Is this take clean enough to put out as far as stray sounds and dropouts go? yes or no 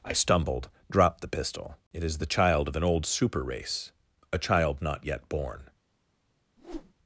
no